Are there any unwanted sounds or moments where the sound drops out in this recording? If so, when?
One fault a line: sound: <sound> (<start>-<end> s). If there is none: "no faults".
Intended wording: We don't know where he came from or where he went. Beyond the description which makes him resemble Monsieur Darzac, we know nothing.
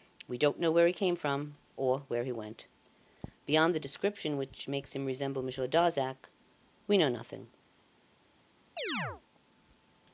sound: chirp (8.8-9.2 s)